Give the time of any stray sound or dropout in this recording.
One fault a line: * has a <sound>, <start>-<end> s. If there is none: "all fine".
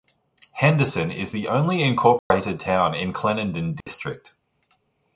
* has a dropout, 2.2-2.3 s
* has a dropout, 3.8-3.9 s